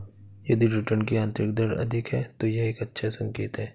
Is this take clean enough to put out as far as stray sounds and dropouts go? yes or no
yes